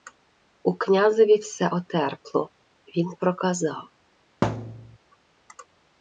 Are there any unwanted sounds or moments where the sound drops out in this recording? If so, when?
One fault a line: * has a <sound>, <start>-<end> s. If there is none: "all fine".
* has a thud, 4.4-5.0 s